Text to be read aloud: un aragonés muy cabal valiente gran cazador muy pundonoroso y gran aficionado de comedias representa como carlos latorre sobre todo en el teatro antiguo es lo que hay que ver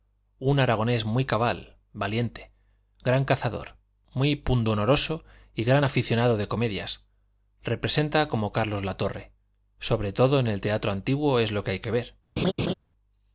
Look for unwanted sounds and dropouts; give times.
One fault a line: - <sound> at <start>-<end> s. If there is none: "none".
- laugh at 12.4-12.7 s